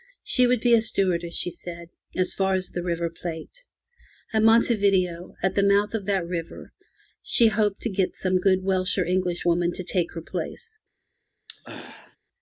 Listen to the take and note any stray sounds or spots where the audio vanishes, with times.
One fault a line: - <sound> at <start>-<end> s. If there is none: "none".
- throat clearing at 11.5-12.2 s